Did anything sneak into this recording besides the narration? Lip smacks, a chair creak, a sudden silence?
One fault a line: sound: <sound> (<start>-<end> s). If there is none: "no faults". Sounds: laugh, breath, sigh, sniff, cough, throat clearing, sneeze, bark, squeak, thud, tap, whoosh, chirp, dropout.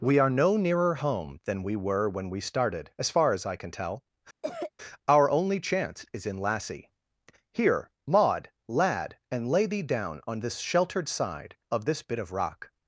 sound: cough (4.4-4.7 s)